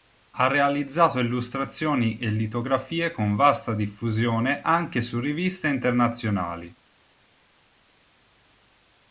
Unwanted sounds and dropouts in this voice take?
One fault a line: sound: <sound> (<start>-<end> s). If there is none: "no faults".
no faults